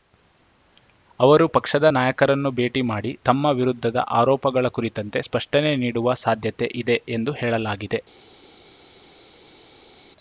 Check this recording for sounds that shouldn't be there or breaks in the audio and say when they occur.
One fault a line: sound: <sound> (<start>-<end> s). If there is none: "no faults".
no faults